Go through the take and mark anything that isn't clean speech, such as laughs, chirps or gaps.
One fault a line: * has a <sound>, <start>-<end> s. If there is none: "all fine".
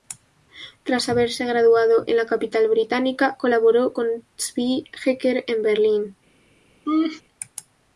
* has a laugh, 6.9-7.2 s